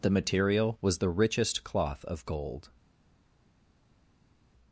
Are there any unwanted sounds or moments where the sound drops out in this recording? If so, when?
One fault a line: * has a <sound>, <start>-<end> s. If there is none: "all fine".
all fine